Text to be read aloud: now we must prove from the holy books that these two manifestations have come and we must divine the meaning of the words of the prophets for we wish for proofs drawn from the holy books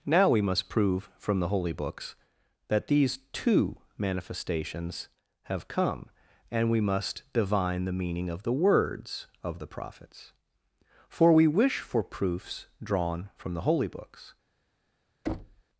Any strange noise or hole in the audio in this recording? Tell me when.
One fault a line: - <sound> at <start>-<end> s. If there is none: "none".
- thud at 15.2-15.6 s